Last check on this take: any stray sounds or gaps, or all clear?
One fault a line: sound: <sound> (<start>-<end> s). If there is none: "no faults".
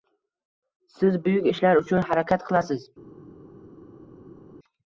no faults